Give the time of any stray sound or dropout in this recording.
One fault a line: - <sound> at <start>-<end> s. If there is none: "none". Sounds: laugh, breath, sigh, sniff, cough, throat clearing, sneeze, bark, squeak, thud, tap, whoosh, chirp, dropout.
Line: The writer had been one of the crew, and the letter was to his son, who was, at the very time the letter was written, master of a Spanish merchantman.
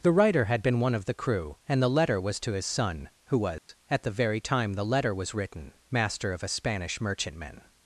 - dropout at 3.6-3.7 s